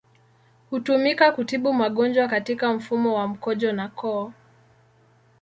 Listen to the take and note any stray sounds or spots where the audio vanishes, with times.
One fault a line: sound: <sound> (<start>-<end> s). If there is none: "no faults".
no faults